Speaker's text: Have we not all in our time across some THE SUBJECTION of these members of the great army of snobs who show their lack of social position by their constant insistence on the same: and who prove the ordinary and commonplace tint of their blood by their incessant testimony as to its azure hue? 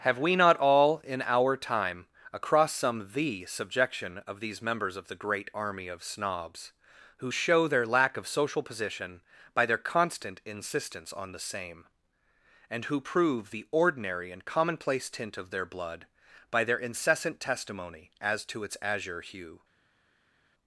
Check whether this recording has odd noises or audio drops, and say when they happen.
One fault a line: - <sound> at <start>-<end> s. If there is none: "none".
none